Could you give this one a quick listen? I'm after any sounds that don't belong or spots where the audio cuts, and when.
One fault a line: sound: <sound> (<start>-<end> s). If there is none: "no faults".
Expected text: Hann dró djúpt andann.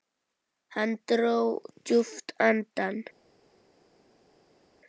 no faults